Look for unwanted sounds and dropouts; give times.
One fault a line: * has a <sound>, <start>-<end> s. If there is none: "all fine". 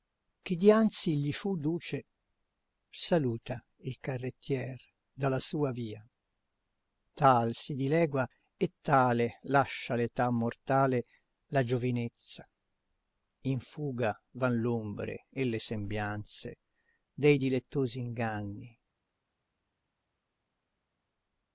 all fine